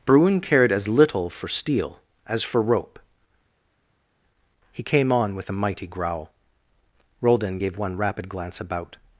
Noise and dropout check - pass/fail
pass